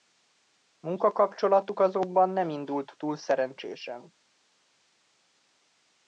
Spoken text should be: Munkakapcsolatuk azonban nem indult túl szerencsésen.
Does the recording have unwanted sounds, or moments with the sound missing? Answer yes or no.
no